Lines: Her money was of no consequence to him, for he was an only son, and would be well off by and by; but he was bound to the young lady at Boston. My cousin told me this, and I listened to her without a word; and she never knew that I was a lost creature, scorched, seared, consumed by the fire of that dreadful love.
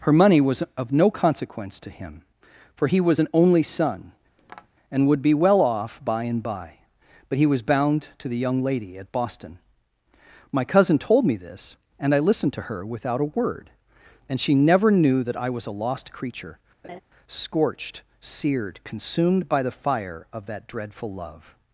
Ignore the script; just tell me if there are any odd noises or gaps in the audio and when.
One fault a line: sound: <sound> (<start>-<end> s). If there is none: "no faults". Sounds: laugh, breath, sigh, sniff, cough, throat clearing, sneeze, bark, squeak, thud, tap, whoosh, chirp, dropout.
sound: tap (4.4-4.7 s)
sound: laugh (16.8-17.0 s)